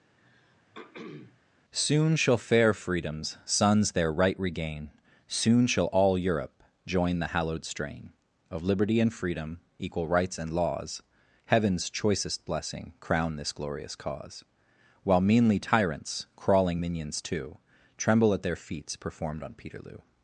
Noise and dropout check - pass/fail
fail